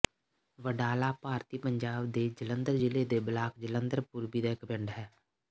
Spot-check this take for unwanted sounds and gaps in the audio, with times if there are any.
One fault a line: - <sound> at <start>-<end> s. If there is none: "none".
none